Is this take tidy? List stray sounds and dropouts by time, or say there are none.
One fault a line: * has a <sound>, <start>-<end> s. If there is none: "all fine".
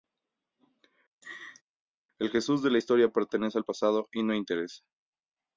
* has a laugh, 1.2-1.6 s